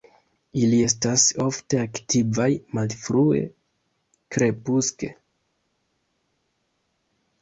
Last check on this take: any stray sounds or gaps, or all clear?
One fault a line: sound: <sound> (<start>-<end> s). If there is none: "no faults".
no faults